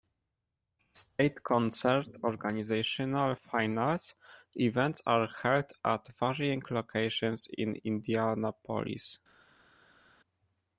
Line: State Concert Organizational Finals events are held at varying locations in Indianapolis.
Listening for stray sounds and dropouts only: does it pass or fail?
pass